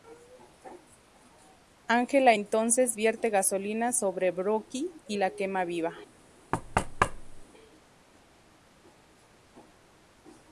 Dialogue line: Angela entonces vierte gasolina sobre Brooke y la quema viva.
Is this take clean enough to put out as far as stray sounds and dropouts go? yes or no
no